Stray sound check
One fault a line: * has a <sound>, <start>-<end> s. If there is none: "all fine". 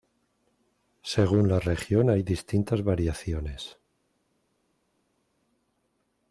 all fine